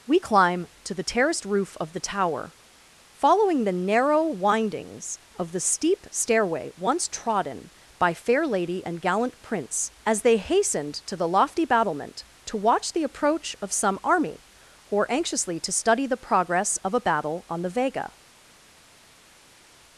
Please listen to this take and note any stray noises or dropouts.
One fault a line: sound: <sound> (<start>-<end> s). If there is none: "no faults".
no faults